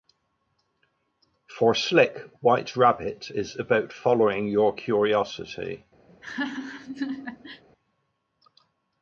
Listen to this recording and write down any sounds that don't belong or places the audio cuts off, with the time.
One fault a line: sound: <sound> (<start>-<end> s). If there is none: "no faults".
sound: laugh (6.1-7.6 s)